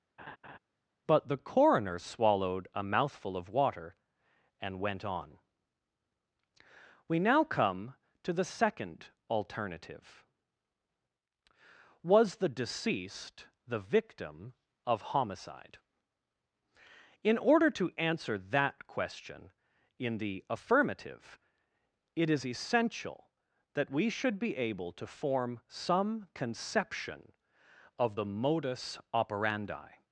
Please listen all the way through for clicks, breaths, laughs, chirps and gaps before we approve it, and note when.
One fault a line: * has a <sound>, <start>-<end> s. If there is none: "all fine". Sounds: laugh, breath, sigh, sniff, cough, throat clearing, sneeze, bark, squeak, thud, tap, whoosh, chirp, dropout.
* has a laugh, 0.2-0.6 s